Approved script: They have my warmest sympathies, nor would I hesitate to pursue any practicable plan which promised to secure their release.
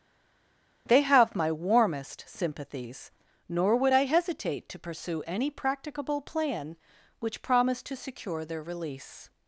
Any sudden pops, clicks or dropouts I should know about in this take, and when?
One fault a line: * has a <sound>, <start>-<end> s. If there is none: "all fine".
all fine